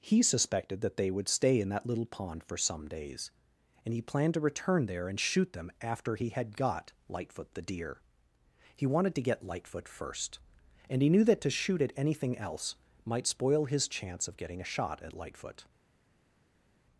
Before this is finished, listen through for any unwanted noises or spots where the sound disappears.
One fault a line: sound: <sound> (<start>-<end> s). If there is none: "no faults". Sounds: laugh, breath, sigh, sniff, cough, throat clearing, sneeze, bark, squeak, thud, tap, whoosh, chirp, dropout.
no faults